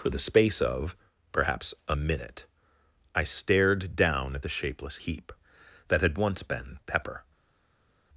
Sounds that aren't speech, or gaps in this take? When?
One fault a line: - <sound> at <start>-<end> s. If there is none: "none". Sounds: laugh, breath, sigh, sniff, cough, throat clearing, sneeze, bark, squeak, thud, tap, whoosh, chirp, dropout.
none